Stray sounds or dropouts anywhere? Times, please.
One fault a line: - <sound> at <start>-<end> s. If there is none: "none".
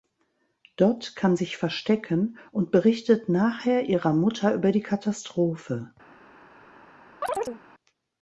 - chirp at 7.2-7.6 s